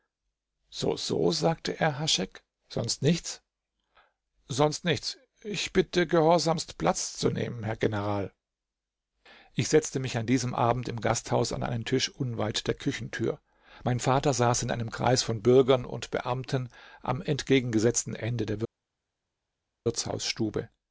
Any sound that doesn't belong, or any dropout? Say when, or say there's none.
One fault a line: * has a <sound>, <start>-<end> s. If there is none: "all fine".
all fine